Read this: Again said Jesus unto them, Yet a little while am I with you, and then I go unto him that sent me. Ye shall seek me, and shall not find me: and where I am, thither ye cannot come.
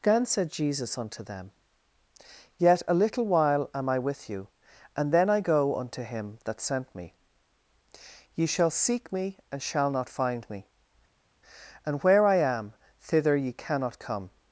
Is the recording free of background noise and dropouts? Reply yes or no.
yes